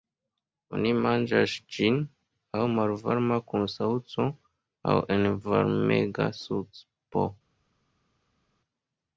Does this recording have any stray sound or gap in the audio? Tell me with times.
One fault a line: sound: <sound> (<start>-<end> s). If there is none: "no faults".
no faults